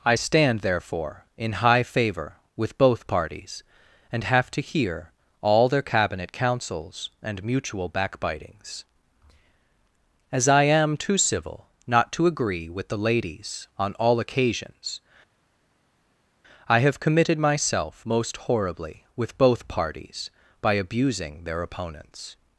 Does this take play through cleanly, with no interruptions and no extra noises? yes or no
yes